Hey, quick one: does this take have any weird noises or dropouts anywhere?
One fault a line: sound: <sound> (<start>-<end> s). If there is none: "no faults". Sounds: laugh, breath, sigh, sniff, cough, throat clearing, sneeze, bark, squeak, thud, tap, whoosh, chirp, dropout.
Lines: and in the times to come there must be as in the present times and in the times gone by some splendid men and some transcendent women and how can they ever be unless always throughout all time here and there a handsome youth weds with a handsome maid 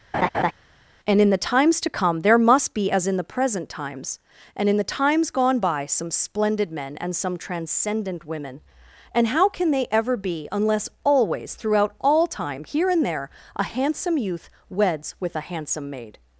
sound: laugh (0.1-0.5 s)